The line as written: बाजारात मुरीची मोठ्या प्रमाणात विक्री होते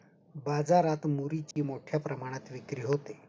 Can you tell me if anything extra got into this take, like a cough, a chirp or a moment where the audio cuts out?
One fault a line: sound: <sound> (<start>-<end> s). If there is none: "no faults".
sound: dropout (1.5-1.6 s)